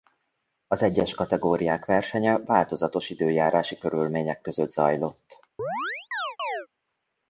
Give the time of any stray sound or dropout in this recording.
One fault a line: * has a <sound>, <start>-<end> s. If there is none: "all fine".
* has a chirp, 5.6-6.7 s